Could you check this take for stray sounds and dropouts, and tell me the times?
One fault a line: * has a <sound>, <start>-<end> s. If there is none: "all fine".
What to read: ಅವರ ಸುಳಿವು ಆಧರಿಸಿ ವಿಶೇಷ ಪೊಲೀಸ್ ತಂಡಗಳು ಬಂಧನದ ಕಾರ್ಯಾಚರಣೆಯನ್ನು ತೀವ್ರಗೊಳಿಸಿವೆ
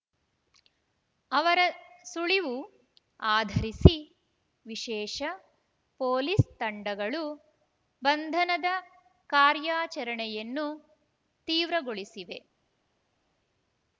all fine